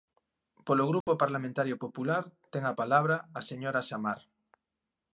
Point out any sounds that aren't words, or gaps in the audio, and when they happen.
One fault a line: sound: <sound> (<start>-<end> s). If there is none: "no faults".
sound: dropout (1.0-1.1 s)